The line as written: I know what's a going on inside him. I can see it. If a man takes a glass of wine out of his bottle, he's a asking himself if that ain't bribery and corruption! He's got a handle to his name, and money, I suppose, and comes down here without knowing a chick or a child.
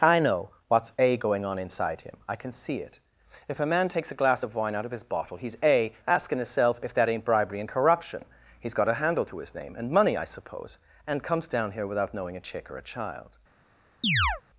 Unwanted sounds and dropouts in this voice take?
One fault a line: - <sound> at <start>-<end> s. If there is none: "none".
- chirp at 14.0-14.4 s